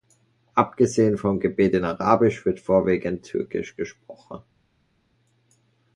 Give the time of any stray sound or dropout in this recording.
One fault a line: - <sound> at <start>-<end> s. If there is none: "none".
none